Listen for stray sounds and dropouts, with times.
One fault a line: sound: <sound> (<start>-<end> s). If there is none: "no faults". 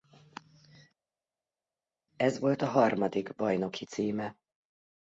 no faults